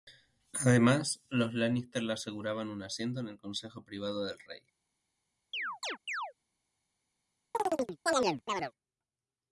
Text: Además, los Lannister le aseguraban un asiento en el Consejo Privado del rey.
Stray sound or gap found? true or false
true